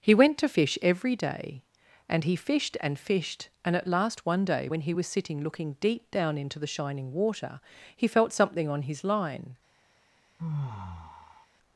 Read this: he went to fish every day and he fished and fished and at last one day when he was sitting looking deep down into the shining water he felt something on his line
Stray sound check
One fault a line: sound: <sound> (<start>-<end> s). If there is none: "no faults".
sound: sigh (10.4-11.5 s)